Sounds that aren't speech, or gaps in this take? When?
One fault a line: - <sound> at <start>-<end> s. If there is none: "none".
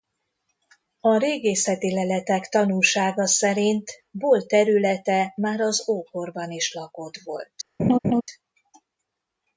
- laugh at 7.8-8.2 s